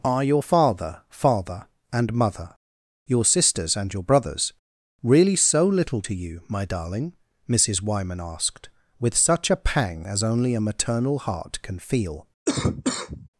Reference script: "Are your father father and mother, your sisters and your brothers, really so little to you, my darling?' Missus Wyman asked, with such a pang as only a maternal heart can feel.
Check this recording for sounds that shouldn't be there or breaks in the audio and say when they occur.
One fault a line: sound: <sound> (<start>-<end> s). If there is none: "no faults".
sound: cough (12.5-13.3 s)